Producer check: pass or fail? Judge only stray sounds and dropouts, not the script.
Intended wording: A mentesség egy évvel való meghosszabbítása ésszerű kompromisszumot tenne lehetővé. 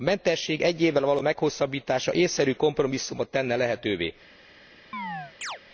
fail